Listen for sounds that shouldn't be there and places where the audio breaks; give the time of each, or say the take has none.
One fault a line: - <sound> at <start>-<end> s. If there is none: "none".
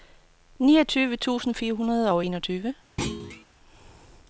- thud at 3.0-3.5 s